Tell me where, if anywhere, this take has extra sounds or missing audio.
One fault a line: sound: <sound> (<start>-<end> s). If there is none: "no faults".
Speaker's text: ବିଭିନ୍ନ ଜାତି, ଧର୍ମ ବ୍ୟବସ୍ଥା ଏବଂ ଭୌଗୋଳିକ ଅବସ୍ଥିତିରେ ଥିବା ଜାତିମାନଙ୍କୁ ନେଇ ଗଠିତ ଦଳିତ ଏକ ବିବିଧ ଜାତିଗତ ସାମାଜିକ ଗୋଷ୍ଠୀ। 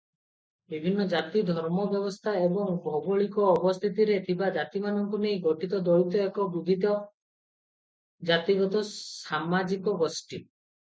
no faults